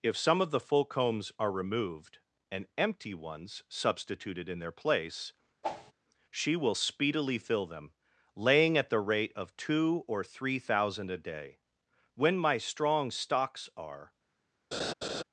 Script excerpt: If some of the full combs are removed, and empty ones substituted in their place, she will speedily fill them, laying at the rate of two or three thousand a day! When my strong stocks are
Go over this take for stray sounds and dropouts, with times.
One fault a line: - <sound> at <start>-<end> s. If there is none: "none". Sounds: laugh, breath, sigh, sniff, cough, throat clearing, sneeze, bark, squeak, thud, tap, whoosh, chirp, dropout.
- whoosh at 5.6-5.9 s
- laugh at 14.7-15.2 s